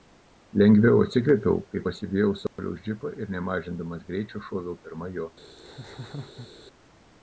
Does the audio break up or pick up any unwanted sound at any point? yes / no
yes